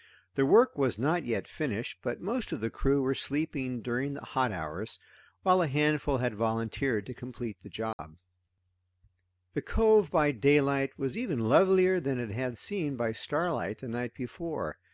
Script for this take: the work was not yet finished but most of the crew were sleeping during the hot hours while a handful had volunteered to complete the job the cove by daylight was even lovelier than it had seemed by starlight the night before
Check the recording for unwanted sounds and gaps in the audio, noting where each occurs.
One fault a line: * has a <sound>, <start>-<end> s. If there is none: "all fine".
* has a dropout, 7.9-8.0 s